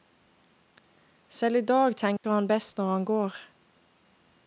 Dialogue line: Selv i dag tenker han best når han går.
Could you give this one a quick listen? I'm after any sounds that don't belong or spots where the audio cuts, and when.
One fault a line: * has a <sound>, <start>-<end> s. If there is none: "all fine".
* has a dropout, 2.2-2.2 s